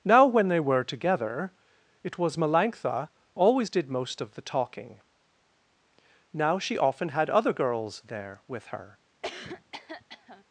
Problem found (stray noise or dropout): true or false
true